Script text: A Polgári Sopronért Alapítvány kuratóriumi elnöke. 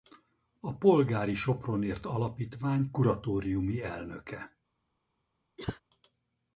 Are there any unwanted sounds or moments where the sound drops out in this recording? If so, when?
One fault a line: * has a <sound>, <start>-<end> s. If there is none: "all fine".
* has a cough, 5.6-5.8 s